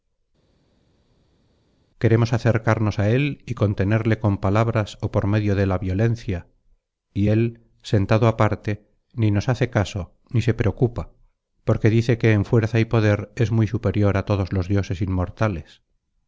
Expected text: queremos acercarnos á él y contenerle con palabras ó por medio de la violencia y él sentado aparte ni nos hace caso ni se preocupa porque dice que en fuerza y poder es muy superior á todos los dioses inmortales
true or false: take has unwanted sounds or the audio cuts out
false